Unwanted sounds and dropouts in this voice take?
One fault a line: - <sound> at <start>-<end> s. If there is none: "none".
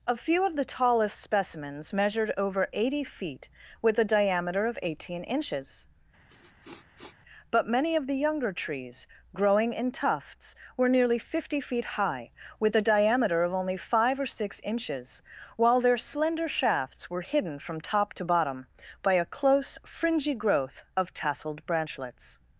- sniff at 6.3-7.2 s